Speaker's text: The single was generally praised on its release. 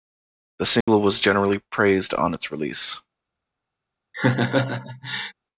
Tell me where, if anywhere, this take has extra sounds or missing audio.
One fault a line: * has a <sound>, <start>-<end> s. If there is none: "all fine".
* has a dropout, 0.8-0.9 s
* has a laugh, 4.1-5.3 s